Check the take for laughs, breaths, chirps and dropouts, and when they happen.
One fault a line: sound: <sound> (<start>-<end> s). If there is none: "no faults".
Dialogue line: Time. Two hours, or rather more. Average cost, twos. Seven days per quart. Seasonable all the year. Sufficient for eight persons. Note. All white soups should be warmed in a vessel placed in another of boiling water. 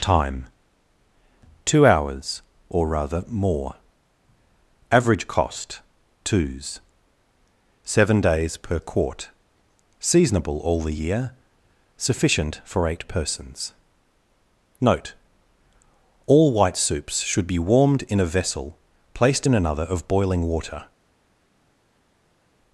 no faults